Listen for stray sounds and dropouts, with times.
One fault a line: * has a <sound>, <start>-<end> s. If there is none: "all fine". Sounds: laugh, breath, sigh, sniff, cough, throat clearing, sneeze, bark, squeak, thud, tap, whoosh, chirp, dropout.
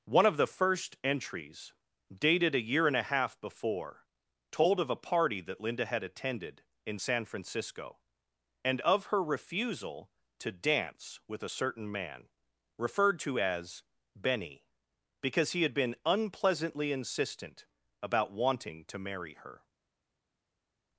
all fine